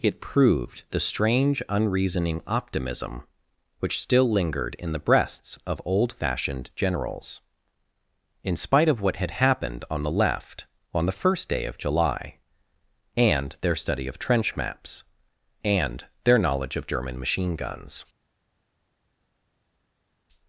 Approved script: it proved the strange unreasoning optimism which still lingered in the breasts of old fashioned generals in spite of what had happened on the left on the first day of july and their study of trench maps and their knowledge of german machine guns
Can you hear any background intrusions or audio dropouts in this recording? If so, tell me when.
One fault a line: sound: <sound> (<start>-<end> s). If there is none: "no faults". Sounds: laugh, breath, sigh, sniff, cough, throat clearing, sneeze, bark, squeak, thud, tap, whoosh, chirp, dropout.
no faults